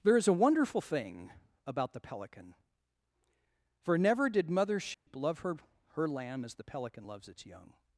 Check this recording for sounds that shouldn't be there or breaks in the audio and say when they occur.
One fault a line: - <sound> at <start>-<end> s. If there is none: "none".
- dropout at 4.9-5.1 s